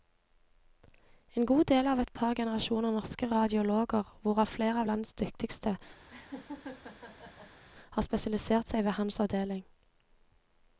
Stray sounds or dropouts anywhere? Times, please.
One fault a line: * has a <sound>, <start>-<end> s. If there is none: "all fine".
* has a laugh, 6.1-7.6 s